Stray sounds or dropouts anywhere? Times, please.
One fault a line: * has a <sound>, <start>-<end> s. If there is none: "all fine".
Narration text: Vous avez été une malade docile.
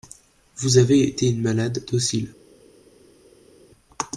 all fine